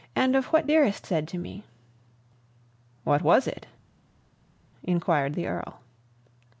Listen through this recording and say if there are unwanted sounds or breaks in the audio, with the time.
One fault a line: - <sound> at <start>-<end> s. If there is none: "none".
none